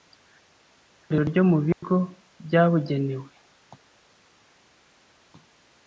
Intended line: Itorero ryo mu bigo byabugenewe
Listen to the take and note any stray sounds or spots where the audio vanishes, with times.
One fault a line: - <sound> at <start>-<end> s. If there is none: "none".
- dropout at 1.7-1.8 s